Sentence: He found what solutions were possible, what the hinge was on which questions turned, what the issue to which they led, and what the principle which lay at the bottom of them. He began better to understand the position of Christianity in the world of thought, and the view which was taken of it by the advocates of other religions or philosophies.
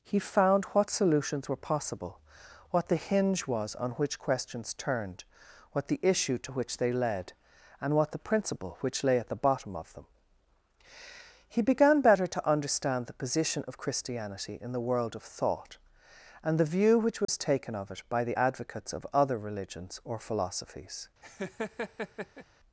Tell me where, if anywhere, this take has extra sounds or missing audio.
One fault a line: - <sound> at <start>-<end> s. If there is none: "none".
- dropout at 17.2-17.3 s
- laugh at 21.2-22.5 s